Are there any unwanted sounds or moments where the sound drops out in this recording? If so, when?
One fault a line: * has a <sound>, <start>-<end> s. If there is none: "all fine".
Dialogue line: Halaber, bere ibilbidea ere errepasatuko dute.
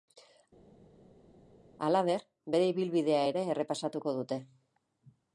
all fine